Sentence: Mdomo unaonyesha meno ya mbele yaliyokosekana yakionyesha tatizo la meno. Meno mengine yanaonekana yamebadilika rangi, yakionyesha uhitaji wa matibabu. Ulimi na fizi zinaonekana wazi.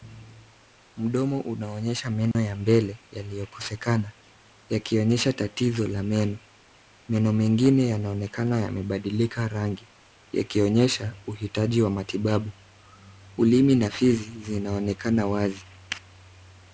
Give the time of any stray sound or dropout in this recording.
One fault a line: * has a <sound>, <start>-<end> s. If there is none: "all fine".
* has a dropout, 2.3-2.3 s